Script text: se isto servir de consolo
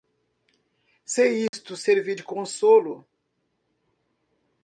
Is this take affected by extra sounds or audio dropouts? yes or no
yes